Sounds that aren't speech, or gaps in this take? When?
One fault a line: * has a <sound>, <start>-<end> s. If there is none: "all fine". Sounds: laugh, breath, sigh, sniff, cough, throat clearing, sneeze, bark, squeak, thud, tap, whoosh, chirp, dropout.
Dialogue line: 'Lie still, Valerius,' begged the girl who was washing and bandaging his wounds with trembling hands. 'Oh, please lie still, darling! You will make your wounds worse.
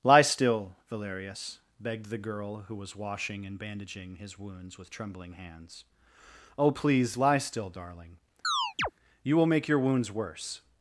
* has a chirp, 8.4-8.9 s